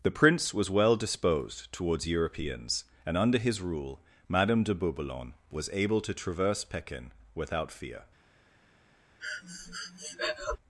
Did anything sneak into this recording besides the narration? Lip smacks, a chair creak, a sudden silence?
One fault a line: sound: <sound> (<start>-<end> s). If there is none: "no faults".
sound: breath (9.2-10.6 s)